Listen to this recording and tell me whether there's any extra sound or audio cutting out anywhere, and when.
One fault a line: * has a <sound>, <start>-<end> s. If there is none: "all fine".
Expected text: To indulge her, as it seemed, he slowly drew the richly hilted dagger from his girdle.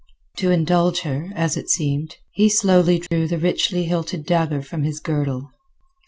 * has a dropout, 3.1-3.1 s